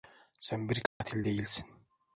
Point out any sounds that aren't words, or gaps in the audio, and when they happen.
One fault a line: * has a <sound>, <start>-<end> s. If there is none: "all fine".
* has a dropout, 0.9-1.0 s